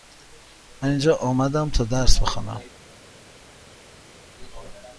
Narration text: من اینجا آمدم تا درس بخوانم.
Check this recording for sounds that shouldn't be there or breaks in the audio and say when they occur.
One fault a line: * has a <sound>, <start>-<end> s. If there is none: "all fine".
all fine